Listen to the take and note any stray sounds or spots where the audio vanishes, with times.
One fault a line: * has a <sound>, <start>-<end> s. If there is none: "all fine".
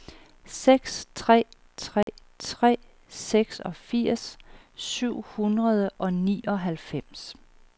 * has a dropout, 2.0-2.1 s